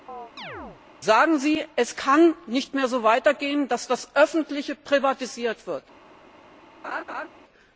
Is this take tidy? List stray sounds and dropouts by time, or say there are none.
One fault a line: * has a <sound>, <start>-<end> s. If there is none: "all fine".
* has a chirp, 0.1-0.8 s
* has a laugh, 6.8-7.3 s